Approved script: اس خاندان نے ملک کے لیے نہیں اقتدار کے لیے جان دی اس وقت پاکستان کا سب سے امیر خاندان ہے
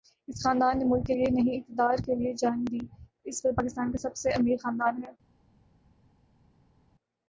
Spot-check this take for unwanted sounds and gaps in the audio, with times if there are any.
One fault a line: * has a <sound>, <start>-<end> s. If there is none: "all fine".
all fine